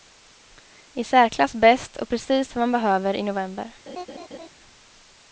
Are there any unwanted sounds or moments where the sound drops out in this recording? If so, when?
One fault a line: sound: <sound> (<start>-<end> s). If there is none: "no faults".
sound: laugh (3.9-4.5 s)